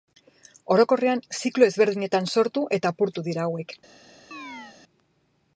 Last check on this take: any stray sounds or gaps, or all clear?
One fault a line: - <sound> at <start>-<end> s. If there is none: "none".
- chirp at 4.3-4.8 s